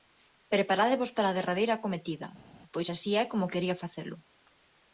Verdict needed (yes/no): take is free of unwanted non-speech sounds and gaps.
yes